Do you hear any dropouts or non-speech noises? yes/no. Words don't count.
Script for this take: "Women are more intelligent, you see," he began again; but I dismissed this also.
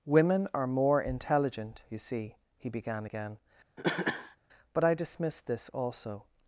yes